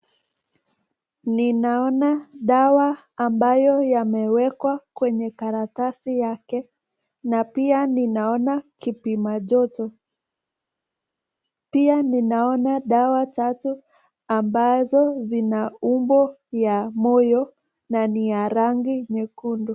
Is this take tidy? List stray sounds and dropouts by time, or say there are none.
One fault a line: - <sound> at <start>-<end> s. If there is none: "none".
none